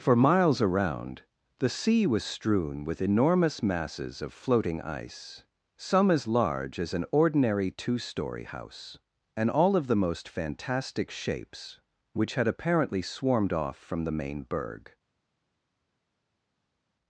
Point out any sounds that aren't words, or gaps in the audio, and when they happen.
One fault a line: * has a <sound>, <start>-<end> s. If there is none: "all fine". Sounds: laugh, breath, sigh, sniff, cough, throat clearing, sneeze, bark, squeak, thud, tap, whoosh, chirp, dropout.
all fine